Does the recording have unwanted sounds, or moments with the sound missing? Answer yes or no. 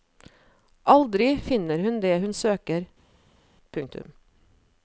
no